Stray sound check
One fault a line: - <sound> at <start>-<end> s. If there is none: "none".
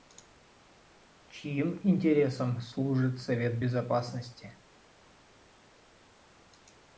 none